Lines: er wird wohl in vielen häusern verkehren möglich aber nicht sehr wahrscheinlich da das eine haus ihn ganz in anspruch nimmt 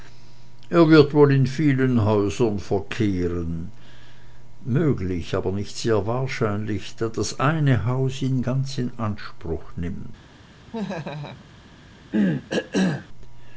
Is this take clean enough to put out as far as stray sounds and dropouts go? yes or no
no